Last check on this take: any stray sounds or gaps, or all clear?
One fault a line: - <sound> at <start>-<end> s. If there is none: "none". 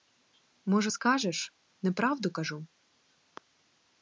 none